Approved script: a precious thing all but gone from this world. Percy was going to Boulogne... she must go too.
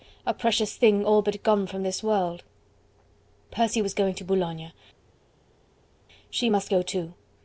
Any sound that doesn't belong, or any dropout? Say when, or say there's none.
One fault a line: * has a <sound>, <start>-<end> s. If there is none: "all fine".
all fine